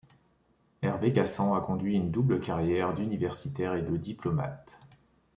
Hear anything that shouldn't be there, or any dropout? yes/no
no